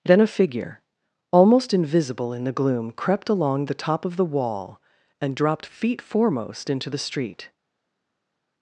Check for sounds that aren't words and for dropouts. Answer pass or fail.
pass